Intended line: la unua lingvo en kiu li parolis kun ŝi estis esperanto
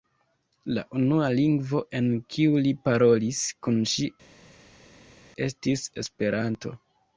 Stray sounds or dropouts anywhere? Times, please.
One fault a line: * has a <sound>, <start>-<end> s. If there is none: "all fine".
all fine